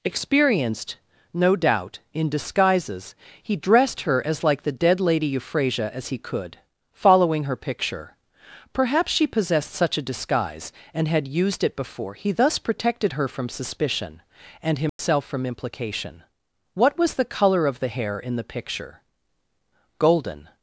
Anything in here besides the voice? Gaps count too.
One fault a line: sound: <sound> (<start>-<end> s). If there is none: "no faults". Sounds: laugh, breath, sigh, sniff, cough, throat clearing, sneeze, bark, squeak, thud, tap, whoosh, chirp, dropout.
sound: dropout (14.9-15.0 s)